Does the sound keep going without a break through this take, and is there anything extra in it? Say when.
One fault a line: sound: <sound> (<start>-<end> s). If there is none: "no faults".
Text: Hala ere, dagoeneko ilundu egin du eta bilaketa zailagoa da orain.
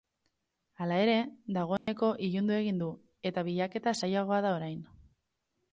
sound: dropout (1.8-1.9 s)